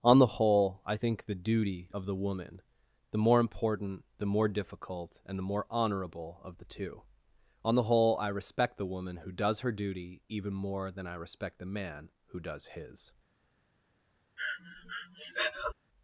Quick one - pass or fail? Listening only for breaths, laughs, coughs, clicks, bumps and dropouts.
fail